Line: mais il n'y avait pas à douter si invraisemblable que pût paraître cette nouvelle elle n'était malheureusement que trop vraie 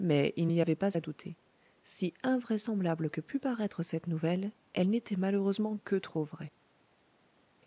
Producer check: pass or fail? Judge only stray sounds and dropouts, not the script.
pass